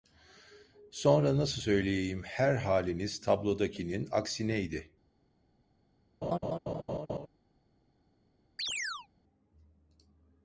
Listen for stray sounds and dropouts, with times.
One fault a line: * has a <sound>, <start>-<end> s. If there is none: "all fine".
* has a laugh, 6.2-7.3 s
* has a chirp, 8.6-9.1 s